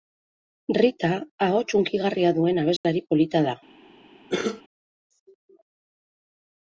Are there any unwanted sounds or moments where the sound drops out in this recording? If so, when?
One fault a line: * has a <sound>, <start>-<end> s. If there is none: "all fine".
* has a dropout, 2.8-2.8 s
* has a cough, 4.3-4.6 s